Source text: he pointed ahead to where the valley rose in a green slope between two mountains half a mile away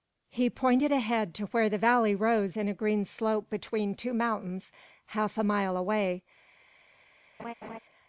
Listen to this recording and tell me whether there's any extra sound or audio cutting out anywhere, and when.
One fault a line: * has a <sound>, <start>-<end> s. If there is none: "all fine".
* has a laugh, 7.4-7.8 s